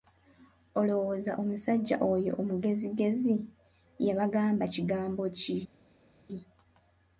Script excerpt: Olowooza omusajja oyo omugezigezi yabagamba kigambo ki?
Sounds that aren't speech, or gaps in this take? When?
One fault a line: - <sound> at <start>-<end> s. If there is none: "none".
none